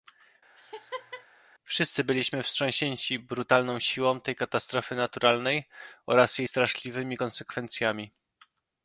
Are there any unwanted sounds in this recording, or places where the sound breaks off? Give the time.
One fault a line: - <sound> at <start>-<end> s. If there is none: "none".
- laugh at 0.6-1.3 s